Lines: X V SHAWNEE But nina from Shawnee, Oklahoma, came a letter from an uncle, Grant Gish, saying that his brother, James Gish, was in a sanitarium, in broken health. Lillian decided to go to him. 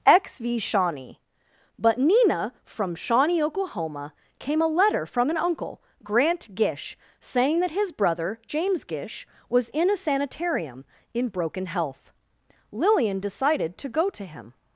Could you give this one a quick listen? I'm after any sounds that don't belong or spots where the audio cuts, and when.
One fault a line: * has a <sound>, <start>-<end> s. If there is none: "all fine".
all fine